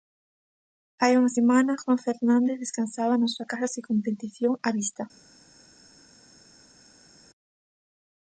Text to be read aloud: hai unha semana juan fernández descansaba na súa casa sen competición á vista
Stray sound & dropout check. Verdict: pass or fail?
pass